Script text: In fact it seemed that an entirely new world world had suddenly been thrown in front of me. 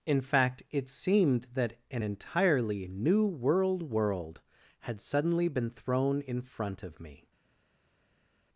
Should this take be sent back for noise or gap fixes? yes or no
no